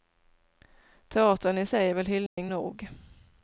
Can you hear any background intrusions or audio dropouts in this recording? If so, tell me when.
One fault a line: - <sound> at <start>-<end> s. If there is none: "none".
- dropout at 2.3-2.4 s